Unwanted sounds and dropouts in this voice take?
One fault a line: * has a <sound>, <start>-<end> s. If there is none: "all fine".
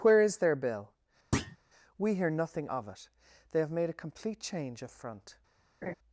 * has a thud, 1.3-1.6 s
* has a laugh, 5.8-5.9 s